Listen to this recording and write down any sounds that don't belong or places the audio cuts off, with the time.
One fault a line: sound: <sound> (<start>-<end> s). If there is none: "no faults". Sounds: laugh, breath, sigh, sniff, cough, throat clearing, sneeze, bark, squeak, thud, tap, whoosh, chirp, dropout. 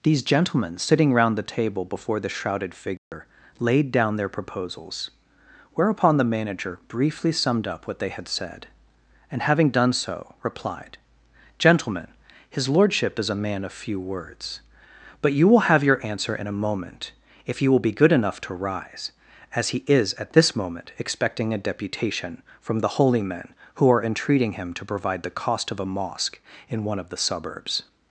sound: dropout (3.0-3.1 s)